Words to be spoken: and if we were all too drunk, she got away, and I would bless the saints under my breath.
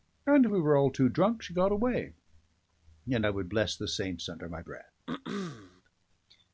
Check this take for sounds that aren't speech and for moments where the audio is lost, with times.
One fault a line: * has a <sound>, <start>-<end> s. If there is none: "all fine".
* has a throat clearing, 5.1-5.8 s